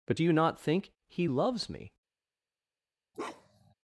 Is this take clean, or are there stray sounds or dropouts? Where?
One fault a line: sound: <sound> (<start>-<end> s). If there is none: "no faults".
sound: bark (3.1-3.7 s)